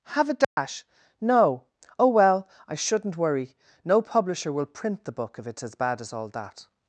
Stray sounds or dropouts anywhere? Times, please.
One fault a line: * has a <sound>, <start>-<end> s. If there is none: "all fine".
* has a dropout, 0.4-0.6 s